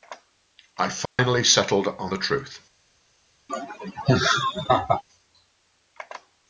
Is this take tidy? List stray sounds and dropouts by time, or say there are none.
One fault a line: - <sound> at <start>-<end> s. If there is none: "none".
- dropout at 1.1-1.2 s
- laugh at 3.5-5.0 s